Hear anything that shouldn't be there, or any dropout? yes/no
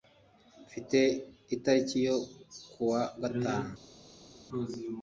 no